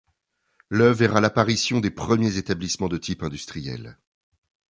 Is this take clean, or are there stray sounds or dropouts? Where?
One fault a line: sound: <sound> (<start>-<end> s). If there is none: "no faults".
no faults